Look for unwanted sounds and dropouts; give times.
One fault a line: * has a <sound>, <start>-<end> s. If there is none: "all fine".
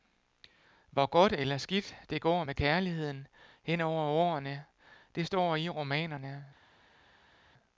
all fine